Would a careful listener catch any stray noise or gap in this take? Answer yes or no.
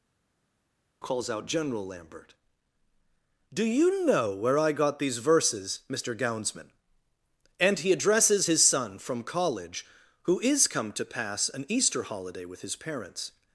no